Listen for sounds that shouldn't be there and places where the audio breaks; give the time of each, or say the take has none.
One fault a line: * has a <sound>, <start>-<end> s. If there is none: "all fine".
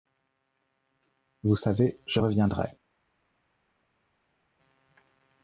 all fine